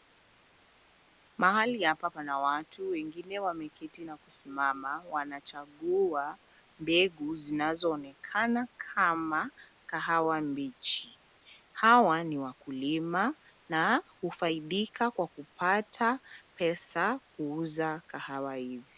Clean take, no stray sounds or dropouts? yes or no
yes